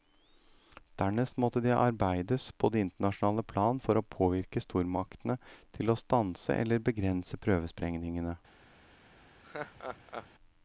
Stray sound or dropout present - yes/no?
yes